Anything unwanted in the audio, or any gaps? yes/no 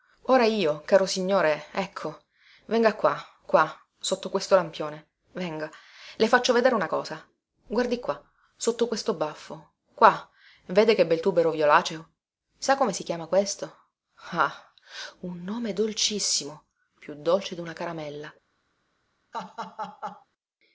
yes